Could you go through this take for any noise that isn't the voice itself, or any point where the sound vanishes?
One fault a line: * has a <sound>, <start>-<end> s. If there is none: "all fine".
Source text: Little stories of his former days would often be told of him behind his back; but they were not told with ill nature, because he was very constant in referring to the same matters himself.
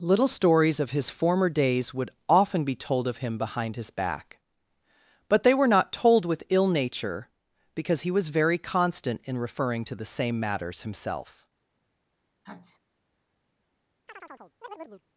* has a sneeze, 12.4-12.8 s
* has a chirp, 14.1-15.0 s